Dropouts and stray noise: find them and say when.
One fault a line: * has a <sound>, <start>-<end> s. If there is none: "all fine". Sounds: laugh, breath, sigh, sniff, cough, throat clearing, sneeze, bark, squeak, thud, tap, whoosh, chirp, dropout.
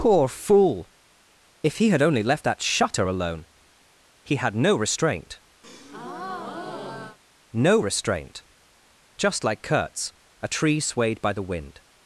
* has a breath, 5.6-7.2 s